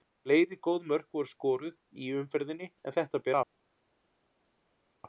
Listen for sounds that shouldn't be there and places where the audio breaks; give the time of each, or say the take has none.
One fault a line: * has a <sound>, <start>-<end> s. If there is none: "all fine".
all fine